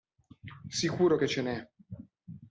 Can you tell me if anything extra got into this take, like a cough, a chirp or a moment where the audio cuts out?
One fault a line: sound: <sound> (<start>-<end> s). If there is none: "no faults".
no faults